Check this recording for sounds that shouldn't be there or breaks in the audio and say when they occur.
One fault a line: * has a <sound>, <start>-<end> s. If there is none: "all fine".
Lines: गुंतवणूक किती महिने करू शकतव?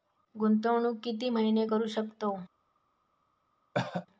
* has a cough, 3.7-4.1 s